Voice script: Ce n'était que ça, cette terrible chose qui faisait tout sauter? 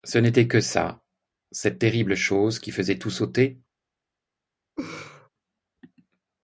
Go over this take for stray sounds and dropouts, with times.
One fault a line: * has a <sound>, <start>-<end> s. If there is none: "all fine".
* has a laugh, 4.8-5.3 s